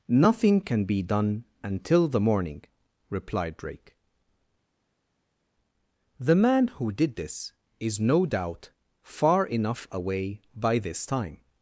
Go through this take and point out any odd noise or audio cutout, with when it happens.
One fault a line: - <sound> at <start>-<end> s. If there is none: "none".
none